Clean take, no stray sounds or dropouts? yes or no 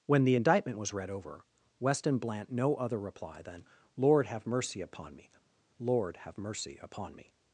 yes